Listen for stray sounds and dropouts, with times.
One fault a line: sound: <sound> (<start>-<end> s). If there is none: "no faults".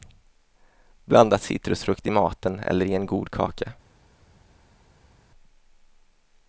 no faults